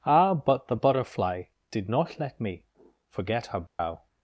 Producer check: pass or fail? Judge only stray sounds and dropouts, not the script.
fail